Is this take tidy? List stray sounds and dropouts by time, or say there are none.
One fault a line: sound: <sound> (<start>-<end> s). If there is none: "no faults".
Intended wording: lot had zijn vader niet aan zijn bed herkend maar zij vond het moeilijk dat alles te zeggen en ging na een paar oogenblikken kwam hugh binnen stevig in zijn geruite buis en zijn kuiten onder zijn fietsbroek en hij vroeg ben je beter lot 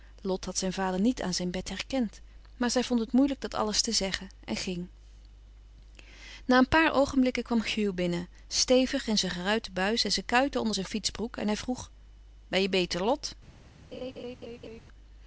sound: laugh (13.9-14.8 s)